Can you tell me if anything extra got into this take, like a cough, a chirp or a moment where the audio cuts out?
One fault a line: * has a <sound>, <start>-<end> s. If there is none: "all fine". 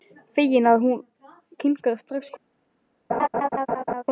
* has a laugh, 3.1-4.0 s